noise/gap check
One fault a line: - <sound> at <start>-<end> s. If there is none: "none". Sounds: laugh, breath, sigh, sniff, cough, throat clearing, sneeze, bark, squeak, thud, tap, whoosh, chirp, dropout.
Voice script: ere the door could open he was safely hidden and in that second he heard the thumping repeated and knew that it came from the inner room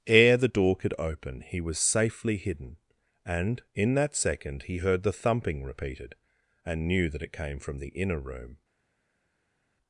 none